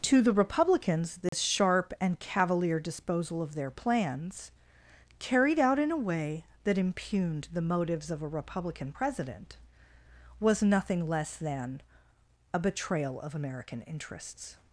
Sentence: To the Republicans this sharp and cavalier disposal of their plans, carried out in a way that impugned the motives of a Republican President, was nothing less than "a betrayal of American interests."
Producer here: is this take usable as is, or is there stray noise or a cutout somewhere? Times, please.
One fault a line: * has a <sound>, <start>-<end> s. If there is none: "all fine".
* has a dropout, 1.3-1.3 s